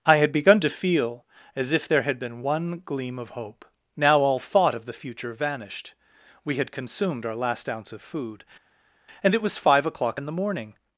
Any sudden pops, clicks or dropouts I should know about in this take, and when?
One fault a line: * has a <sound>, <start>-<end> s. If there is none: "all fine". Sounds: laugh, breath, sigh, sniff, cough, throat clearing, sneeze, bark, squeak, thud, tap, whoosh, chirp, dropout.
all fine